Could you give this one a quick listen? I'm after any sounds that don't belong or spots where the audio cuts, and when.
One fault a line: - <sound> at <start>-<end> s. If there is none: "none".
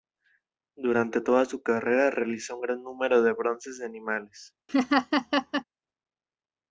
- laugh at 4.7-5.6 s